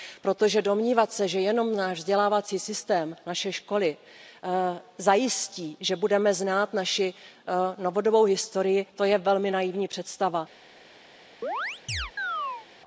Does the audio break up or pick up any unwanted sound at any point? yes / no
yes